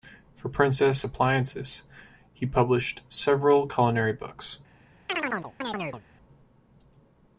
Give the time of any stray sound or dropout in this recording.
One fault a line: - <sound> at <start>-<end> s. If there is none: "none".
- chirp at 5.1-6.0 s